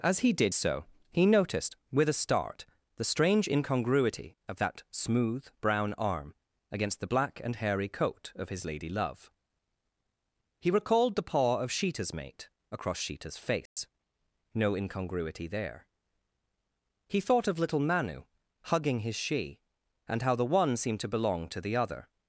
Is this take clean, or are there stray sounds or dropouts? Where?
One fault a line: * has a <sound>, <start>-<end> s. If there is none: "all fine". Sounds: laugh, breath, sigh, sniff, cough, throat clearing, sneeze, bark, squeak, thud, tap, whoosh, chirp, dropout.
* has a dropout, 13.7-13.8 s